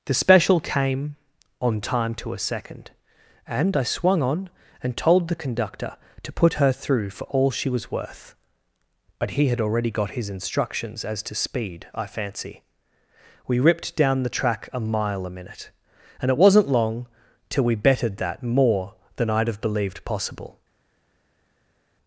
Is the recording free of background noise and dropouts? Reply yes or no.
yes